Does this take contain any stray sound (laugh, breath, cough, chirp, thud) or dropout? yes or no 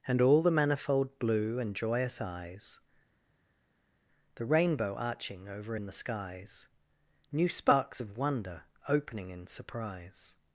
no